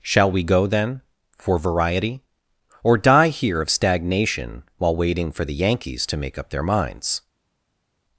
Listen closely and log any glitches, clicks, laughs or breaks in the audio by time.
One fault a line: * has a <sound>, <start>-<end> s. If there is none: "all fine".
all fine